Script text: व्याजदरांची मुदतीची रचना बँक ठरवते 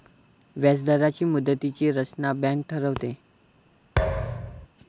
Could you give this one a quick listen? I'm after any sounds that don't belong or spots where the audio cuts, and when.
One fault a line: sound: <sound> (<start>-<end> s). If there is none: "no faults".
sound: thud (4.0-4.7 s)